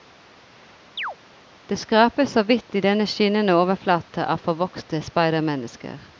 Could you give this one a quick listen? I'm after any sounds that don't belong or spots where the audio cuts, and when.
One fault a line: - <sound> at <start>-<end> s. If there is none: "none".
- chirp at 1.0-1.2 s